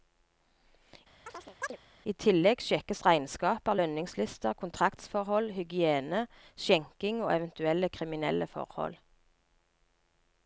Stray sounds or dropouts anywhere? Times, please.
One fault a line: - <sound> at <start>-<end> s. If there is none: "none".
- chirp at 1.3-1.8 s